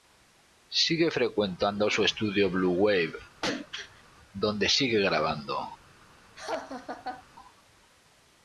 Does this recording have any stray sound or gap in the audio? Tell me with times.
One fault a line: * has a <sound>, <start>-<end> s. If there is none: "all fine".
* has a throat clearing, 3.4-4.0 s
* has a laugh, 6.4-7.2 s